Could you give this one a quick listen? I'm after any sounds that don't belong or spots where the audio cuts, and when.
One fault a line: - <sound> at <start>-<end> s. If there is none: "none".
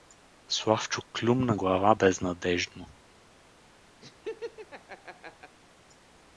- laugh at 4.0-5.6 s